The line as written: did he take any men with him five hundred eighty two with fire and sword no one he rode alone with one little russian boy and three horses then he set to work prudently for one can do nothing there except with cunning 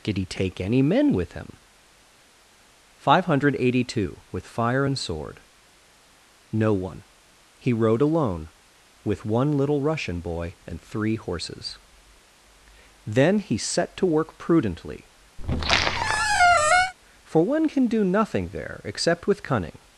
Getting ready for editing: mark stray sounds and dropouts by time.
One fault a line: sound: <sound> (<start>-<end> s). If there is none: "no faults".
sound: squeak (15.4-16.9 s)